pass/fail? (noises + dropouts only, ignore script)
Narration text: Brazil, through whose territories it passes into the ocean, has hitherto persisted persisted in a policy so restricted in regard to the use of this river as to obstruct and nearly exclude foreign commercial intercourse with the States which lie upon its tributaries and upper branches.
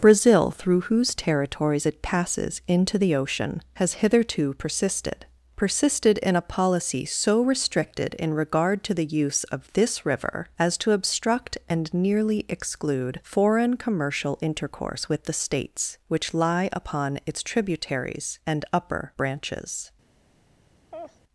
fail